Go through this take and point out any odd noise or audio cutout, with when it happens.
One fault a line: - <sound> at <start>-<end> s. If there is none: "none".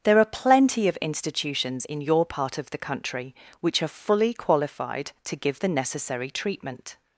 none